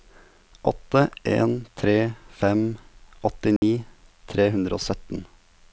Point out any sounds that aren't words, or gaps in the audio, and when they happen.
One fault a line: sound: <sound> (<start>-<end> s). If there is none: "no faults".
sound: dropout (3.6-3.6 s)